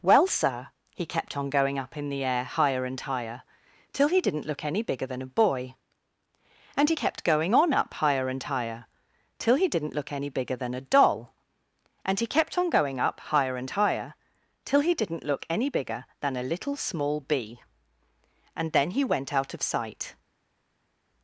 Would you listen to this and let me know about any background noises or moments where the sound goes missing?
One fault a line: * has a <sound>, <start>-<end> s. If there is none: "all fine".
all fine